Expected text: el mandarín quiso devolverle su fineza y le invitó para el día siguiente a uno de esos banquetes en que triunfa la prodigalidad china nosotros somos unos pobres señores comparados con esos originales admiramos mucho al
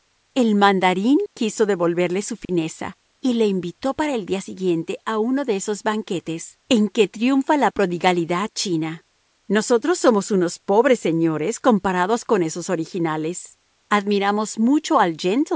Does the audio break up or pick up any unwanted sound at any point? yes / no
yes